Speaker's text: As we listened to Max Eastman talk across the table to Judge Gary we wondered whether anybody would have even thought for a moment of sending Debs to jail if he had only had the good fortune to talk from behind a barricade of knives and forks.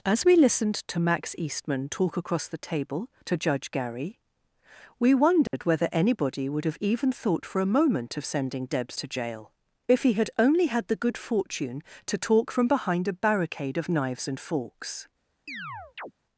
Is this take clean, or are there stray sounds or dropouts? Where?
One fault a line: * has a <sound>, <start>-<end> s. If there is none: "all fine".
* has a dropout, 5.5-5.5 s
* has a chirp, 15.5-16.1 s